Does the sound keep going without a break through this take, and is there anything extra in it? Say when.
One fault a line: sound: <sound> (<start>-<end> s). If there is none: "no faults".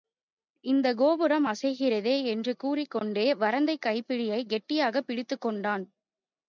no faults